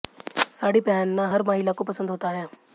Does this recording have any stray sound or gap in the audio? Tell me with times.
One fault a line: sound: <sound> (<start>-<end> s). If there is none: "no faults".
no faults